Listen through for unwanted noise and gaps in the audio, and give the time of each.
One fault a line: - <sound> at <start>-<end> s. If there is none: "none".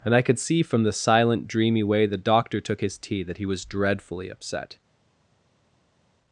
none